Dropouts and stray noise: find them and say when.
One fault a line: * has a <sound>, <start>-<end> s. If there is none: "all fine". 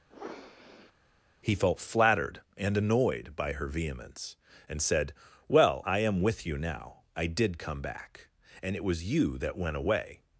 * has a sniff, 0.1-0.9 s